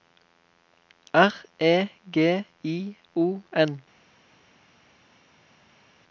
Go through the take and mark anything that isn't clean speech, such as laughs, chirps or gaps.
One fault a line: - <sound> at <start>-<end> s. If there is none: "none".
none